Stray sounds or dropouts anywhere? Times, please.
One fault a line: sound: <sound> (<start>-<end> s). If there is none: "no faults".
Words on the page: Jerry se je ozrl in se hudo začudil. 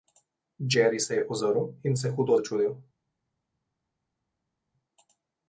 no faults